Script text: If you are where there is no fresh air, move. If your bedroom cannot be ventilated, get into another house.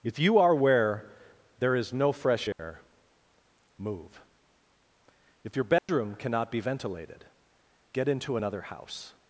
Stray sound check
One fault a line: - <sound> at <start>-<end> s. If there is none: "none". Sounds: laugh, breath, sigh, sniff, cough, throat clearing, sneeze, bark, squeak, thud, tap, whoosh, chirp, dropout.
- dropout at 2.5-2.6 s
- dropout at 5.8-5.9 s